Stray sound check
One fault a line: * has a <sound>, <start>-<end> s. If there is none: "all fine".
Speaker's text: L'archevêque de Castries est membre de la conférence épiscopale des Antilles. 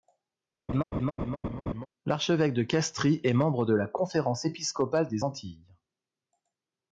* has a laugh, 0.7-1.9 s